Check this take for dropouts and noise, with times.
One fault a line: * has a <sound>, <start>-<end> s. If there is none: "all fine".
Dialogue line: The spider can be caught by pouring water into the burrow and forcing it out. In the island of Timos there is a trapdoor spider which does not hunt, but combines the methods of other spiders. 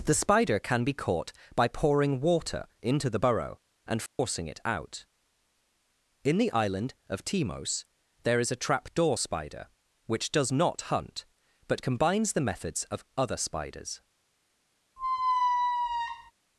* has a dropout, 4.1-4.2 s
* has a squeak, 15.0-16.3 s